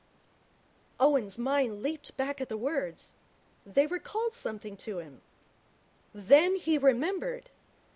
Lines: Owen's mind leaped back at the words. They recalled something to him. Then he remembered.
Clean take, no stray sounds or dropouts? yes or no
yes